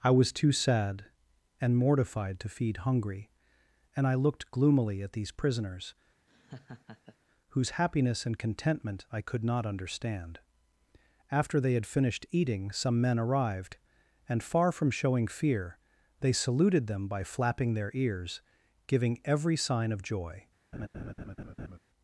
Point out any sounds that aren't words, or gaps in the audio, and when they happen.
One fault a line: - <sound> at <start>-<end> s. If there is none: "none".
- laugh at 6.3-7.2 s
- laugh at 20.7-21.8 s